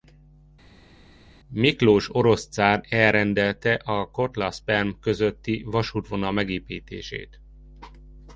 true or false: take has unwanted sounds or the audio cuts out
false